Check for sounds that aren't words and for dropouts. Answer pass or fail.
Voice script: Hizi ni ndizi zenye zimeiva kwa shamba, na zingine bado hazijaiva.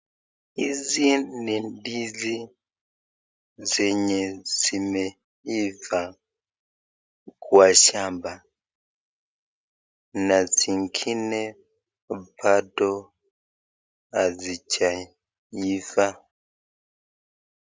pass